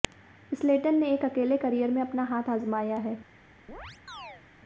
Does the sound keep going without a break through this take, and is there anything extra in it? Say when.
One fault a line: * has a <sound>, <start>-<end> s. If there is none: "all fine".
* has a chirp, 3.7-4.4 s